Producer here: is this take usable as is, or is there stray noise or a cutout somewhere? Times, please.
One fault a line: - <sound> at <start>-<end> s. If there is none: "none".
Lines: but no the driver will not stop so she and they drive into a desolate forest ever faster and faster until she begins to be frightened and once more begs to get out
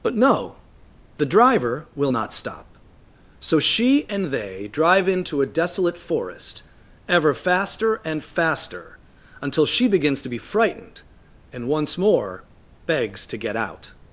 none